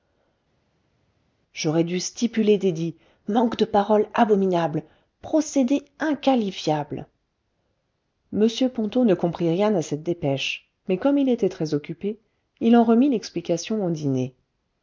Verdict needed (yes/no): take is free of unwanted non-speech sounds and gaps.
yes